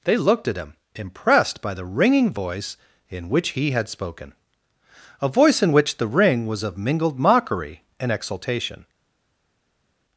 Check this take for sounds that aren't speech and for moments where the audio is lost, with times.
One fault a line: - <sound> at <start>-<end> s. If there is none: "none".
none